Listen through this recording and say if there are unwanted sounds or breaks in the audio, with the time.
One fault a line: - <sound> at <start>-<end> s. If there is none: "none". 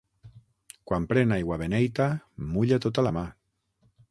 none